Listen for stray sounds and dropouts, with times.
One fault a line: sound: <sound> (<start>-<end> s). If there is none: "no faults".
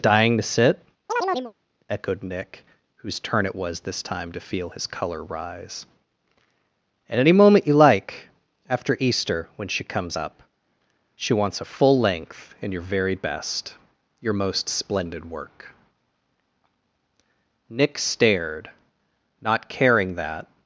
sound: chirp (1.1-1.5 s)